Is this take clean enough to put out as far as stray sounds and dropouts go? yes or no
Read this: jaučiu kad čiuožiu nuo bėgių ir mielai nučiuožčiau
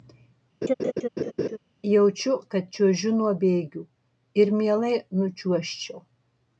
no